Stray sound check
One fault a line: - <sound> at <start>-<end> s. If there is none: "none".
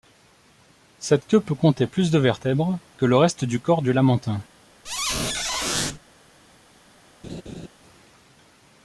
- squeak at 4.8-6.0 s
- laugh at 7.2-7.7 s